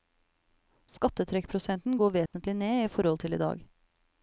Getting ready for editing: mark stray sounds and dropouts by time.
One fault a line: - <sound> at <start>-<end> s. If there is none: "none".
- dropout at 2.3-2.3 s